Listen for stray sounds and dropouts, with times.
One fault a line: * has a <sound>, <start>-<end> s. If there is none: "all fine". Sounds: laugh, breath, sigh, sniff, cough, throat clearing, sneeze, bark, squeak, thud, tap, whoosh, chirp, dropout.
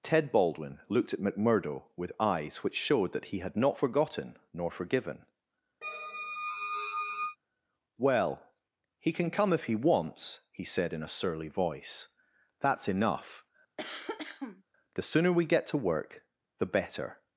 * has a squeak, 5.8-7.4 s
* has a cough, 13.8-14.6 s